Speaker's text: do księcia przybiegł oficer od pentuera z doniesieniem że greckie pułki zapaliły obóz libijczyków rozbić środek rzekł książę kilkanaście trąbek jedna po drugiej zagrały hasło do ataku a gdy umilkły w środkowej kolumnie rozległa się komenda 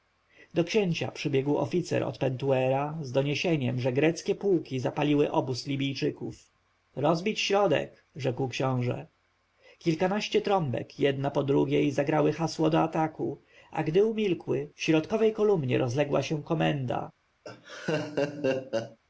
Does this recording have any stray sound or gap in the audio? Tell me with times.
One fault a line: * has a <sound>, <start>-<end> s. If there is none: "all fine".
* has a laugh, 17.4-19.0 s